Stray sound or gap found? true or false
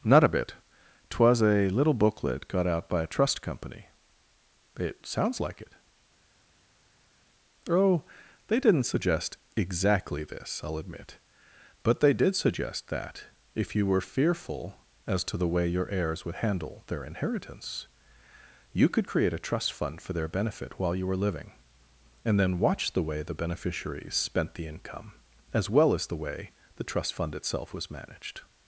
false